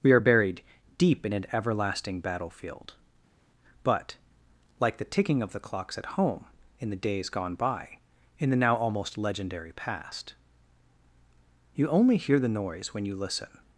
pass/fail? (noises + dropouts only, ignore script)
pass